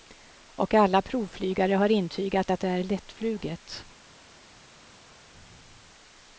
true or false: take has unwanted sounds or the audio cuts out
false